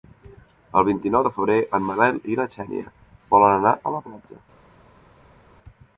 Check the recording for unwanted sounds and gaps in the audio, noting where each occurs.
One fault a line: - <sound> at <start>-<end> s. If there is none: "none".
none